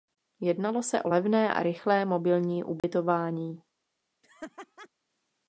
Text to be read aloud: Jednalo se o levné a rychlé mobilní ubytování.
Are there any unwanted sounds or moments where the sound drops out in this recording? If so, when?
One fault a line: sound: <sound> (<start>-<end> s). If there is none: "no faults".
sound: dropout (2.8-2.8 s)
sound: laugh (4.2-4.9 s)